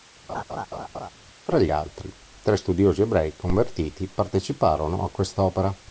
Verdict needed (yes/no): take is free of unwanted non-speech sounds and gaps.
no